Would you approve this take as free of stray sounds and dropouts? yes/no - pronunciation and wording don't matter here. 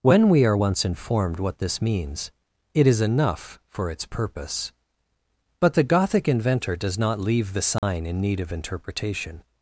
no